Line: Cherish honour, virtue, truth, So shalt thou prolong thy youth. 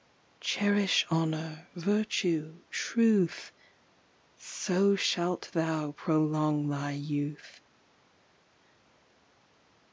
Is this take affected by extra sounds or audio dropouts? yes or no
no